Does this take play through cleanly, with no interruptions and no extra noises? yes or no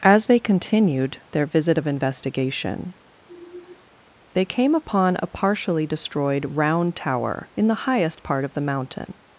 no